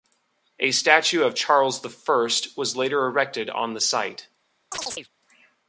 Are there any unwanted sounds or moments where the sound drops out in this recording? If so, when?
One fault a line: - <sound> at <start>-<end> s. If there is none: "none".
- chirp at 4.7-5.1 s